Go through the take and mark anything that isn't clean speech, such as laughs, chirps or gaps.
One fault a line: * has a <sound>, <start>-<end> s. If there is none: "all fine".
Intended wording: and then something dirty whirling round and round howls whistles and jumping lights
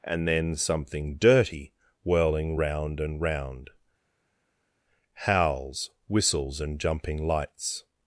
all fine